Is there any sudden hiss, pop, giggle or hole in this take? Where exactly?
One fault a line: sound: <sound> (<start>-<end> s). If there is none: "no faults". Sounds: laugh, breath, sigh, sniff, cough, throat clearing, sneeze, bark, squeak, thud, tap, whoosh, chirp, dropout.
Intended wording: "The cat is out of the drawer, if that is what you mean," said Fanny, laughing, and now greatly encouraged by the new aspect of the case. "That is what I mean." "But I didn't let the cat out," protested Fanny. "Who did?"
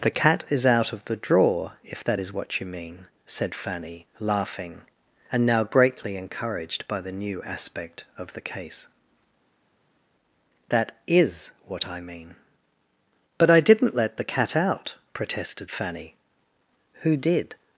no faults